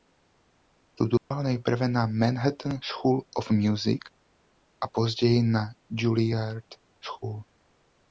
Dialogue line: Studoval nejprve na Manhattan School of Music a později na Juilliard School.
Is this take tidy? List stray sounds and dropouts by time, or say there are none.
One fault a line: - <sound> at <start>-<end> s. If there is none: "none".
- dropout at 1.2-1.3 s